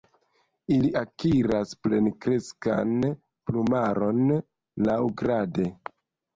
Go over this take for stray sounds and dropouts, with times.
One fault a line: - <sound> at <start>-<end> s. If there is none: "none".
none